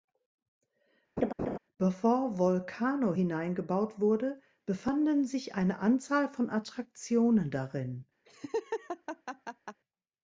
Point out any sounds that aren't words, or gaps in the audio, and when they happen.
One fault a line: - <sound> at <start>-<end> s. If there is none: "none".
- laugh at 1.2-1.6 s
- laugh at 8.3-9.8 s